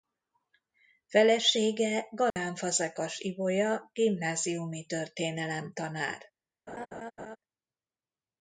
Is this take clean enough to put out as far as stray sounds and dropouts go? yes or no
no